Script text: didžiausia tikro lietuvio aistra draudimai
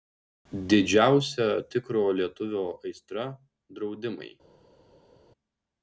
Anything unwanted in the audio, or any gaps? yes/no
no